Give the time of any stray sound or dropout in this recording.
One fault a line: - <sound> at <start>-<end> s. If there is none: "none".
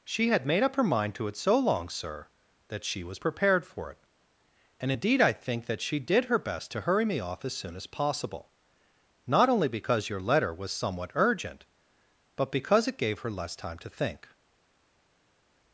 none